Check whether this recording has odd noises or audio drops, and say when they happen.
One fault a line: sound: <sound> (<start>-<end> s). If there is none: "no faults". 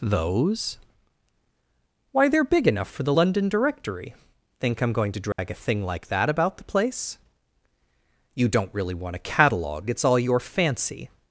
sound: dropout (5.3-5.4 s)